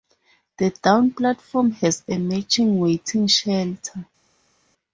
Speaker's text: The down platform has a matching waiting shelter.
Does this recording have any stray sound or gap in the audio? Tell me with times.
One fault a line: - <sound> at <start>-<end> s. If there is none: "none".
none